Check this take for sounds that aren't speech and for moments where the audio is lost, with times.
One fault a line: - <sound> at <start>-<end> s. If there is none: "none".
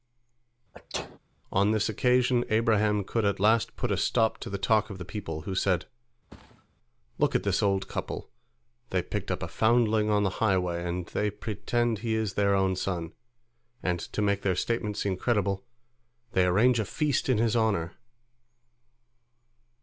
- sneeze at 0.7-1.2 s
- thud at 6.3-6.7 s